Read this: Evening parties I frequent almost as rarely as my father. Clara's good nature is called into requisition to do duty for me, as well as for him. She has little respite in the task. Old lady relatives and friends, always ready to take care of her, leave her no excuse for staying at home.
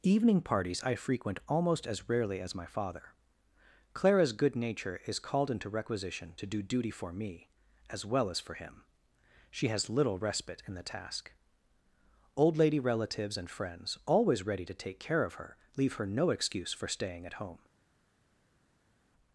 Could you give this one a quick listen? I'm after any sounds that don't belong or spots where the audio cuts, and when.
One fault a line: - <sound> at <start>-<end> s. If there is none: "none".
none